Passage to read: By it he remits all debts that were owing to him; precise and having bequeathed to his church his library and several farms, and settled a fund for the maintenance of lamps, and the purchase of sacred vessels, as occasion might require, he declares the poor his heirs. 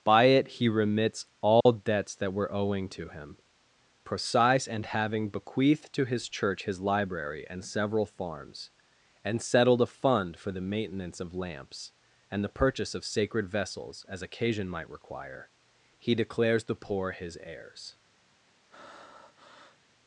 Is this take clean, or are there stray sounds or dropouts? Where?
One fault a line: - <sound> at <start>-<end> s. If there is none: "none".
- dropout at 1.6-1.7 s
- breath at 18.7-19.8 s